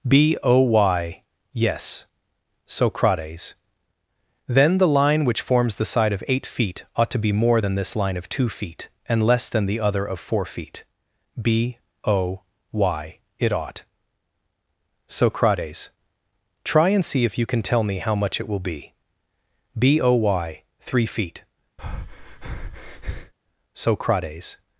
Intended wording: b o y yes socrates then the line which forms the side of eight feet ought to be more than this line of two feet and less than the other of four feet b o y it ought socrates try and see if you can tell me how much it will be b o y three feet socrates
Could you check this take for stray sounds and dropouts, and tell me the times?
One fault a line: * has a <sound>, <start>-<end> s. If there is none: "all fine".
* has a breath, 21.8-23.3 s